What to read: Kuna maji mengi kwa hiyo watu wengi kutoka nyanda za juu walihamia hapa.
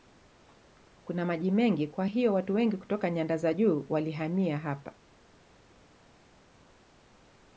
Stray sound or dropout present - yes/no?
no